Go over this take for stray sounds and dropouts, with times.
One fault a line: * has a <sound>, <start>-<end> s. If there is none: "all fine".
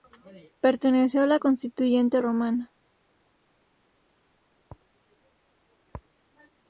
all fine